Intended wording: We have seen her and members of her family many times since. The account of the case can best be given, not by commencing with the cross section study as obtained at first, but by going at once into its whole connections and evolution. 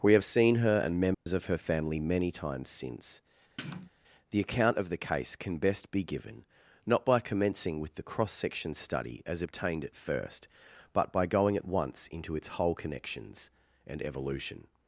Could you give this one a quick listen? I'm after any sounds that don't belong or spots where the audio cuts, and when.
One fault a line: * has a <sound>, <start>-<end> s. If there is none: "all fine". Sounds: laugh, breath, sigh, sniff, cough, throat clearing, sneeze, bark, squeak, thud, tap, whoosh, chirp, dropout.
* has a dropout, 1.1-1.3 s
* has a sniff, 3.6-3.9 s